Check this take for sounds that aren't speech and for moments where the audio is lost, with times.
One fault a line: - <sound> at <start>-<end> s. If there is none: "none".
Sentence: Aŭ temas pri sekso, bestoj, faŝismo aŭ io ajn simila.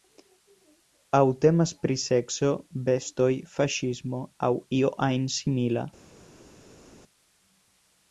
none